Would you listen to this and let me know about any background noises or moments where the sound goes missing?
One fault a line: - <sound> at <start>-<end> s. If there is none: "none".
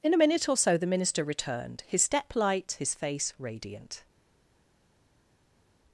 none